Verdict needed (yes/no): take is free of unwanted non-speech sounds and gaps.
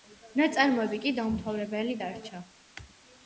yes